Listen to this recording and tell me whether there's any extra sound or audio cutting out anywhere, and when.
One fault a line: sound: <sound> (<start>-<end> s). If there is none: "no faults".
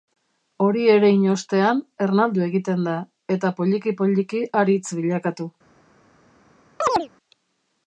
sound: chirp (6.8-7.1 s)